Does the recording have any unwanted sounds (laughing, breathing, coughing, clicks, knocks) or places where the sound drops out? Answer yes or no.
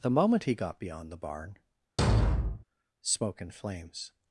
yes